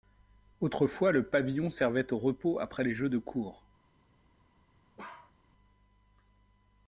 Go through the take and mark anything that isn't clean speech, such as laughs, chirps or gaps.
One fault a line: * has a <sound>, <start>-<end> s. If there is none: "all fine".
* has a bark, 5.0-5.3 s